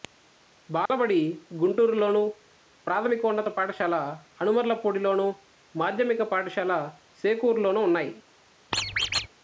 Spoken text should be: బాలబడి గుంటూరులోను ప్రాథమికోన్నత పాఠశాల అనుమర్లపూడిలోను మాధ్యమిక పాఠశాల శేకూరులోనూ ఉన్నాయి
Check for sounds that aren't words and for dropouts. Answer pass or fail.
fail